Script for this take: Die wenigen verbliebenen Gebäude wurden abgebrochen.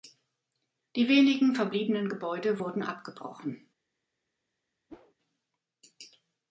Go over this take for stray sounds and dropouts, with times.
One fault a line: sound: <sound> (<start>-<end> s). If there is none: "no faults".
sound: whoosh (4.9-5.1 s)